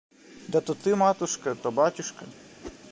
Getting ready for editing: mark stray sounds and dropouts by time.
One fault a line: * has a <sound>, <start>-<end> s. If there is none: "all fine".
* has a whoosh, 2.6-2.8 s